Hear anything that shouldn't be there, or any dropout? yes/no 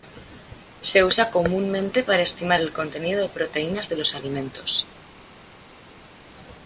no